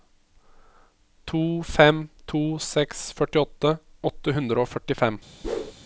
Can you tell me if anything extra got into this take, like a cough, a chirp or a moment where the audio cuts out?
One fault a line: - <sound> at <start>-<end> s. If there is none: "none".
- whoosh at 5.4-5.7 s